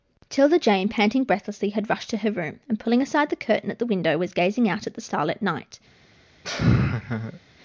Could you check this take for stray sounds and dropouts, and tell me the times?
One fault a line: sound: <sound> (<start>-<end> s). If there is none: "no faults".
sound: laugh (6.4-7.4 s)